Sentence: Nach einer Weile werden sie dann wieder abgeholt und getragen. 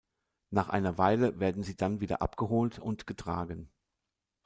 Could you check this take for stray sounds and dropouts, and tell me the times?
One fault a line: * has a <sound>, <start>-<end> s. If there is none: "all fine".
all fine